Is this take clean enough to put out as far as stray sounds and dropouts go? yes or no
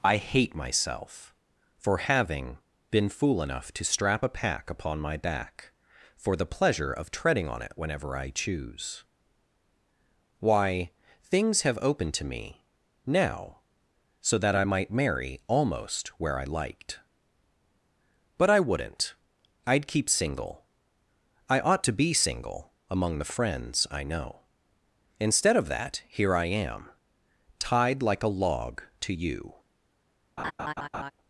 no